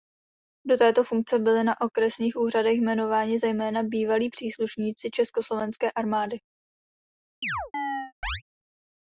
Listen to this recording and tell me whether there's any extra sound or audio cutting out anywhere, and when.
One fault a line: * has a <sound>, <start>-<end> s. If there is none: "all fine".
* has a chirp, 7.4-8.4 s